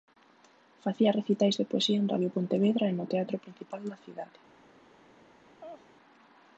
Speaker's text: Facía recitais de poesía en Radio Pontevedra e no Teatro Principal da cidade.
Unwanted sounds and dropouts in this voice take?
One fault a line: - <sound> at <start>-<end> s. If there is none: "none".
- laugh at 5.6-5.9 s